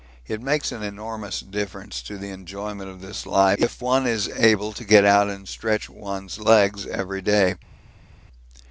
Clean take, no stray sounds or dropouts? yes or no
yes